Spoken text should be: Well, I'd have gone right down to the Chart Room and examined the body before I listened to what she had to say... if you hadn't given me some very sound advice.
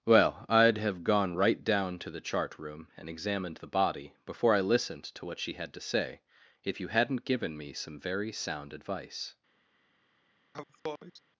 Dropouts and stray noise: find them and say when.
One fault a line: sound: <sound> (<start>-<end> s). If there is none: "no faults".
sound: sneeze (10.5-11.2 s)